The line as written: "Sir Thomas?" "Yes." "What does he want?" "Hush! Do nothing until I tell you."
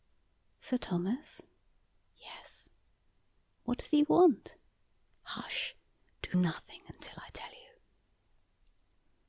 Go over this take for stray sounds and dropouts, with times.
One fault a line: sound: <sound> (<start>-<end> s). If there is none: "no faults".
no faults